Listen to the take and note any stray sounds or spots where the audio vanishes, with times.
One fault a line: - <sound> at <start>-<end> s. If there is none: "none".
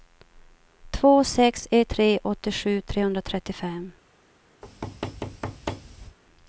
- thud at 4.6-6.2 s